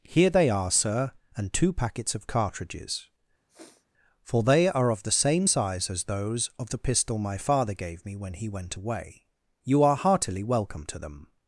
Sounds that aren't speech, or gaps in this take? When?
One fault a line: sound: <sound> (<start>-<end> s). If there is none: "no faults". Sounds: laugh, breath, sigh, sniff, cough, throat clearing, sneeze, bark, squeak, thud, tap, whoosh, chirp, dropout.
sound: sniff (3.5-3.9 s)